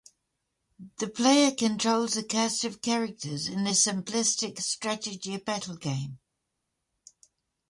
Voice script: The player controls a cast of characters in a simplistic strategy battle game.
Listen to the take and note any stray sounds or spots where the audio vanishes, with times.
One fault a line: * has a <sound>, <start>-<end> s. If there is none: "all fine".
all fine